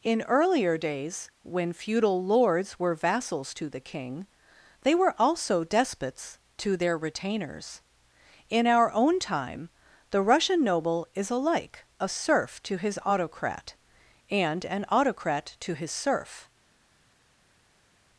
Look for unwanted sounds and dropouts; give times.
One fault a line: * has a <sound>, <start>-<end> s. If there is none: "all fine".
all fine